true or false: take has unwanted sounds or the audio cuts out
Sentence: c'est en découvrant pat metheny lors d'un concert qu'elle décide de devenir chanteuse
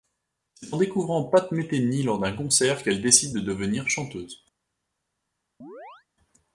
true